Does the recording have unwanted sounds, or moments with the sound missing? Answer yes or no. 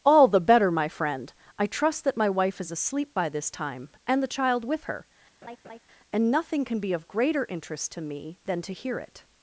yes